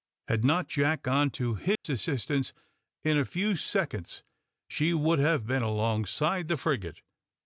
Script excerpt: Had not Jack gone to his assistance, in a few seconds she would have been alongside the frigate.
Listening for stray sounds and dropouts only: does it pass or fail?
fail